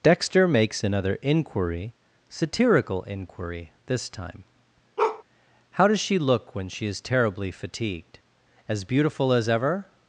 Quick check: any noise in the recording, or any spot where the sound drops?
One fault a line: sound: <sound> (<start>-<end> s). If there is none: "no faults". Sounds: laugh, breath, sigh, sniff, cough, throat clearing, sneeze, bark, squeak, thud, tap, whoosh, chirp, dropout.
sound: bark (5.0-5.2 s)